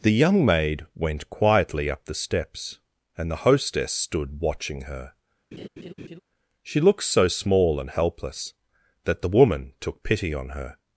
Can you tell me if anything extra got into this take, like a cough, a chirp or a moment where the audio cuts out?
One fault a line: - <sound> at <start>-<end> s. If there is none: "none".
- laugh at 5.5-6.2 s